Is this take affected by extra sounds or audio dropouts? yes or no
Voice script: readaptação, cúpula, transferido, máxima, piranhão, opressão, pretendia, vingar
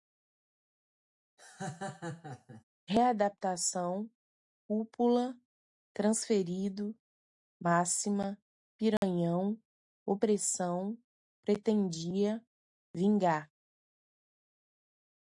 yes